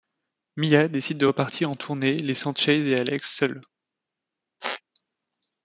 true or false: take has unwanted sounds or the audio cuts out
true